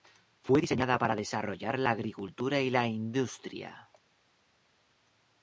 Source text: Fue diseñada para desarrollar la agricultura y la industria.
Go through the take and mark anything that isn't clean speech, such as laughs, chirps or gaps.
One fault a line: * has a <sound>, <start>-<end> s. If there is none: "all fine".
all fine